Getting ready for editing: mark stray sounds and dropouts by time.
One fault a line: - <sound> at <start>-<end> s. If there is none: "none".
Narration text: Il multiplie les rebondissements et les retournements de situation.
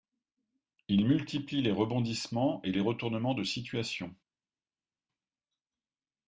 none